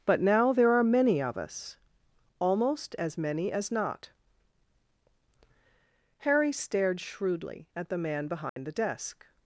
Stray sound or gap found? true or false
true